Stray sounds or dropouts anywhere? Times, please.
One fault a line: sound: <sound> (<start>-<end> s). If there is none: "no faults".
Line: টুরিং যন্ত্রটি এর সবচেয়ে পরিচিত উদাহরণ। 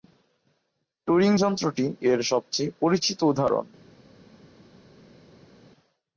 no faults